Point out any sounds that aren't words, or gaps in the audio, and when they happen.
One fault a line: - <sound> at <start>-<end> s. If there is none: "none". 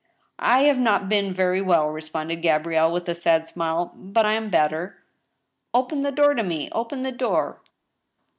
none